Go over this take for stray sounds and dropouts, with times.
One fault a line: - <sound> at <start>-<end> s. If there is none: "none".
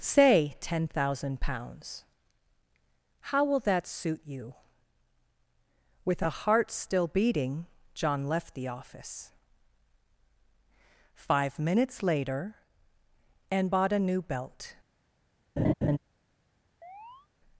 - laugh at 15.6-16.0 s
- chirp at 16.8-17.3 s